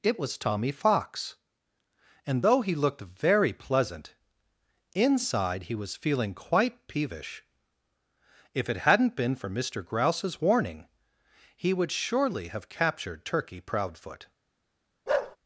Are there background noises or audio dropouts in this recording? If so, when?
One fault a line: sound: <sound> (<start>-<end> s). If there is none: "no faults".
sound: bark (15.1-15.4 s)